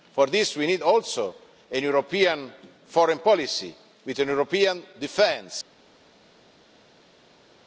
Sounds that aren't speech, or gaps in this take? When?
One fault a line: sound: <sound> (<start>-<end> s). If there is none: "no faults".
no faults